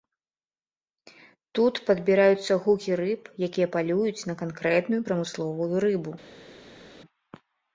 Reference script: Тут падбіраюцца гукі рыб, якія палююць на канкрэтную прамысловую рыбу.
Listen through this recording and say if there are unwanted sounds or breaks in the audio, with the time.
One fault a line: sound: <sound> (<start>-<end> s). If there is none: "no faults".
no faults